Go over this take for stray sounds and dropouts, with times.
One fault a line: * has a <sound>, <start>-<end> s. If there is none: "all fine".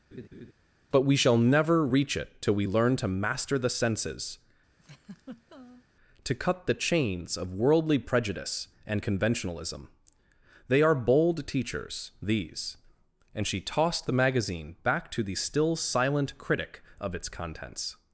* has a laugh, 0.1-0.5 s
* has a laugh, 4.8-5.8 s